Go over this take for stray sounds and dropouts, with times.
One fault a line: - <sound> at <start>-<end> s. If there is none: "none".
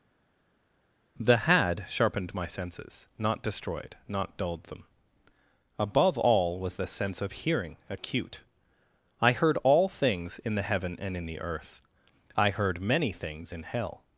none